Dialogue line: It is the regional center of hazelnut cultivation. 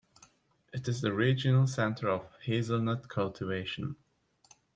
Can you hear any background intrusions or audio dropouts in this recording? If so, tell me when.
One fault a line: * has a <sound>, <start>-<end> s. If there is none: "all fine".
all fine